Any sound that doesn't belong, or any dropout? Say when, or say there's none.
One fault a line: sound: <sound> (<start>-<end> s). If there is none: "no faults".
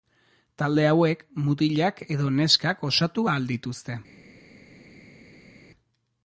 no faults